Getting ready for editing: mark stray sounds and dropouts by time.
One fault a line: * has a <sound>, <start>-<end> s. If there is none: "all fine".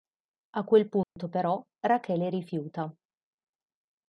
* has a dropout, 1.0-1.2 s